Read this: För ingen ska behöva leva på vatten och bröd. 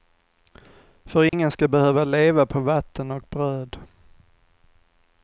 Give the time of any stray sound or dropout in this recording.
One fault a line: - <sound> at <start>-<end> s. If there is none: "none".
- dropout at 1.3-1.3 s